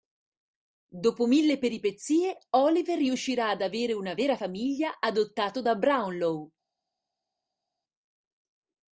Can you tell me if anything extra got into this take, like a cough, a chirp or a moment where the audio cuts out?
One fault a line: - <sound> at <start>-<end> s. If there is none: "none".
none